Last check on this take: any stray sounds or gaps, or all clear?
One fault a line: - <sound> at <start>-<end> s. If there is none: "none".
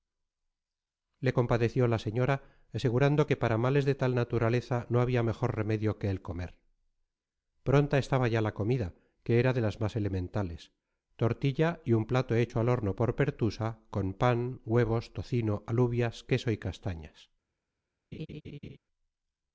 - laugh at 18.1-18.8 s